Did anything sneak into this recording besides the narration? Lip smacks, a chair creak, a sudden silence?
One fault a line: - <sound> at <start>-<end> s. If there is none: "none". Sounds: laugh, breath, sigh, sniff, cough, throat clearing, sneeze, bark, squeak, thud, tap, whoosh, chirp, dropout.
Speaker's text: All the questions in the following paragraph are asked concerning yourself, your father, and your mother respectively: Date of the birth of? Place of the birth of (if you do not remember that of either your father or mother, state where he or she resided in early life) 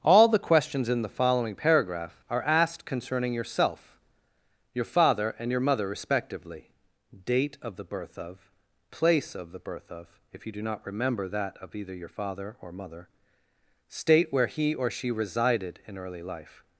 none